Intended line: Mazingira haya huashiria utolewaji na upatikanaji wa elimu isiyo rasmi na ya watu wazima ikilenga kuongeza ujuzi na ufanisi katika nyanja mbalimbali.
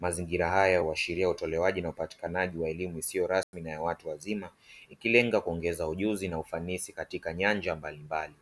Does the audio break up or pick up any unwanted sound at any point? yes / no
yes